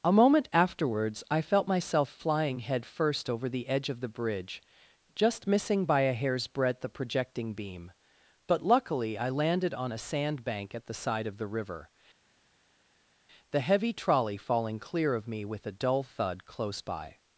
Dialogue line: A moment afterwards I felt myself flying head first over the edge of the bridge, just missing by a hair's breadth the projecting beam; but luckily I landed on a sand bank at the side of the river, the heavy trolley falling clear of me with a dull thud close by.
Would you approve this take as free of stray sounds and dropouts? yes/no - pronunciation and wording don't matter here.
yes